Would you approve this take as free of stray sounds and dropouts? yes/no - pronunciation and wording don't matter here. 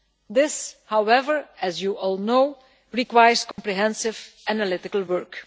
no